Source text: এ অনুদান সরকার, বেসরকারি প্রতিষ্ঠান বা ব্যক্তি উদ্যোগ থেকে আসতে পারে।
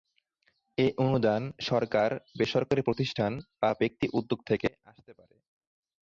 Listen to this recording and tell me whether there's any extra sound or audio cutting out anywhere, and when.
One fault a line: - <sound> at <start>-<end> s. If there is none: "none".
none